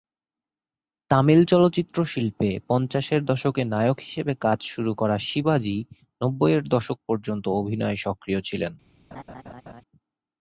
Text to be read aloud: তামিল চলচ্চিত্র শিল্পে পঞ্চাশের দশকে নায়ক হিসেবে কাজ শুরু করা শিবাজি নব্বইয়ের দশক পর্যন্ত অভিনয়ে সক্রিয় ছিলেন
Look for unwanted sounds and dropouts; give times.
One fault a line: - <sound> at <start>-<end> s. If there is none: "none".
- laugh at 9.1-9.8 s